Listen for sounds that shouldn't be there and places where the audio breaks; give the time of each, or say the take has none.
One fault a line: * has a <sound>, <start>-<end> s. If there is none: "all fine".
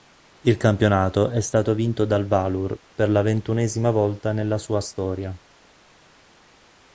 all fine